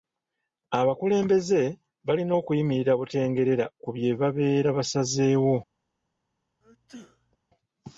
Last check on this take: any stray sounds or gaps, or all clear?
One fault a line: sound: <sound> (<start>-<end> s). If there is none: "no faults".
sound: sneeze (6.6-7.4 s)